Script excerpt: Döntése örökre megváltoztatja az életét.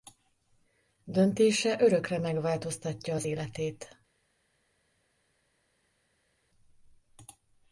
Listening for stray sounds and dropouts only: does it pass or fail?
pass